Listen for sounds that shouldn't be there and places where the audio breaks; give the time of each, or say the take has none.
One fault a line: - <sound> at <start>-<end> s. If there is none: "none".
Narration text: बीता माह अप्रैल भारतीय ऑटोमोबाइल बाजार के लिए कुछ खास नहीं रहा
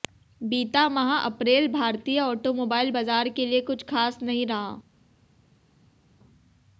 none